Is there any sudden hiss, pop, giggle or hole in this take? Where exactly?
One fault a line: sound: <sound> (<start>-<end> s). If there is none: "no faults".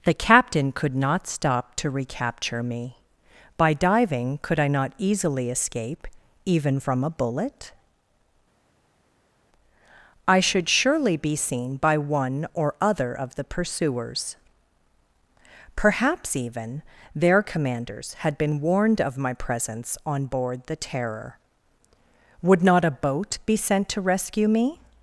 no faults